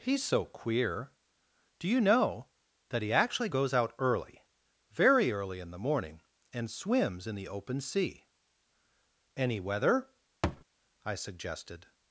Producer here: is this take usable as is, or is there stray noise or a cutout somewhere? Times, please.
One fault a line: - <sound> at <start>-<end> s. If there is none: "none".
- thud at 10.4-10.6 s